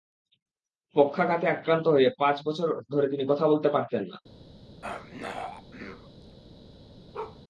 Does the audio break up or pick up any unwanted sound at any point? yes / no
yes